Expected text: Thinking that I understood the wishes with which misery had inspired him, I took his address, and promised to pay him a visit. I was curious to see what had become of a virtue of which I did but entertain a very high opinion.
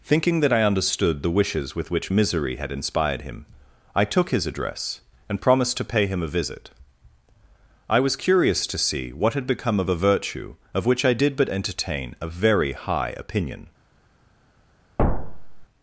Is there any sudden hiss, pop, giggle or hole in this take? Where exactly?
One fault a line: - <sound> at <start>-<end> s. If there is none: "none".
- thud at 15.0-15.7 s